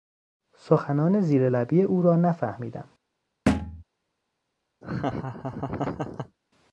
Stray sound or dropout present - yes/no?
yes